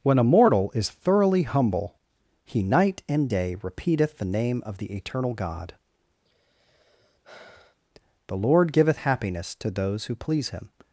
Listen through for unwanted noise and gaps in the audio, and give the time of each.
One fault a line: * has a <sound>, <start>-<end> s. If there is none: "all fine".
* has a sigh, 6.2-7.8 s